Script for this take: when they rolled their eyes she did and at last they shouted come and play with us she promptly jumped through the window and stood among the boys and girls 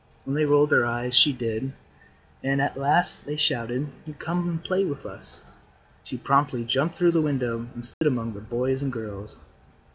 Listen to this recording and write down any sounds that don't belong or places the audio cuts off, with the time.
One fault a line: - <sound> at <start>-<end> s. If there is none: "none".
- dropout at 7.9-8.0 s